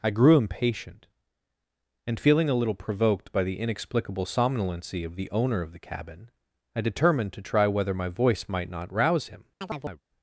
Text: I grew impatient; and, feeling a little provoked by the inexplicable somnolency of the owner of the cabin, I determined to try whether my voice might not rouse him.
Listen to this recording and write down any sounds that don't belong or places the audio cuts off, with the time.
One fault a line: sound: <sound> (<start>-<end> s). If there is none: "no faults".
sound: chirp (9.6-10.0 s)